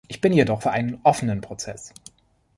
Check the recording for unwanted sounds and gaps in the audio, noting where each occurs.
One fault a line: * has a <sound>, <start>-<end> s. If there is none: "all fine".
all fine